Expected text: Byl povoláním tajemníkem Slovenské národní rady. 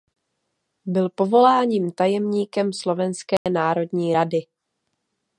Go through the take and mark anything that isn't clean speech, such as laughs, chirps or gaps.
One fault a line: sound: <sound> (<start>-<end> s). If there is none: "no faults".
sound: dropout (3.4-3.5 s)